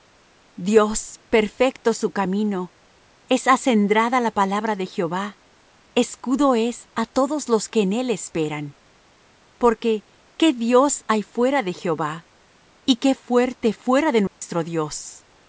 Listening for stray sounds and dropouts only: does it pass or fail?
fail